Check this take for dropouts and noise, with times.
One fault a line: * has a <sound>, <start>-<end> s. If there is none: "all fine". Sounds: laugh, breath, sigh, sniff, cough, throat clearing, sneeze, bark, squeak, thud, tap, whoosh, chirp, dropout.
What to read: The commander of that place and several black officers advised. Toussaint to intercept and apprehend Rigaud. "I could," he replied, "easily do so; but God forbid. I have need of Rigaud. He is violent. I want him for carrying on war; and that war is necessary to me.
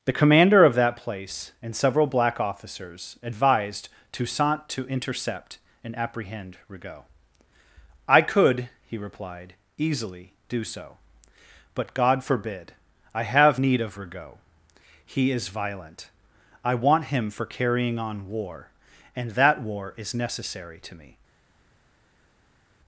all fine